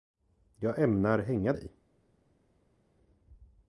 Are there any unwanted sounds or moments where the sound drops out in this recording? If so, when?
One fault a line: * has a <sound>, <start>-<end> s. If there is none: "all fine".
all fine